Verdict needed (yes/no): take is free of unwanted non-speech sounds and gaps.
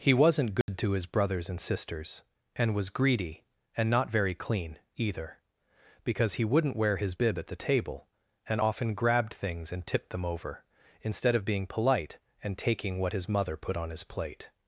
no